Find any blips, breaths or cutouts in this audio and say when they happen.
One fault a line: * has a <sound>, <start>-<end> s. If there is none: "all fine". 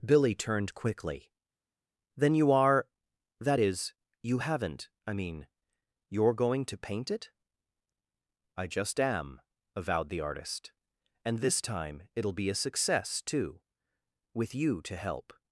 all fine